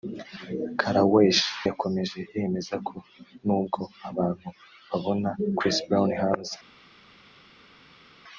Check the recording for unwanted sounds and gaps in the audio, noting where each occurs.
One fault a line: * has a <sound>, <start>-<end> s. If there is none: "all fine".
all fine